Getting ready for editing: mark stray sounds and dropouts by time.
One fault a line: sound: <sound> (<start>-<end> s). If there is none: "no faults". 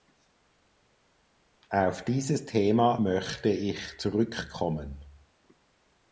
no faults